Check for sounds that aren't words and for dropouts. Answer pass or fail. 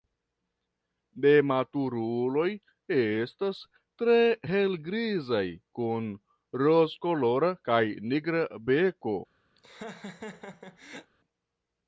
fail